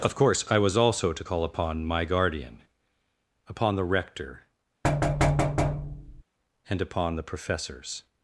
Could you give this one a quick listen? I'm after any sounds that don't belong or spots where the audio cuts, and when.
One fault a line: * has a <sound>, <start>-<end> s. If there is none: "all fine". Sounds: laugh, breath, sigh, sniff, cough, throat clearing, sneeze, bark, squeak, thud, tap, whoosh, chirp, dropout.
* has a thud, 4.8-6.2 s